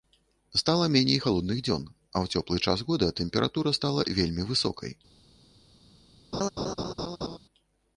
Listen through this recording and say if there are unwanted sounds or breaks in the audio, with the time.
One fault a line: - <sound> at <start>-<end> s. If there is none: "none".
- laugh at 6.3-7.4 s